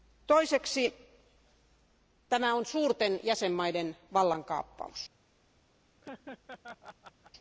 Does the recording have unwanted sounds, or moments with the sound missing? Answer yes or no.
yes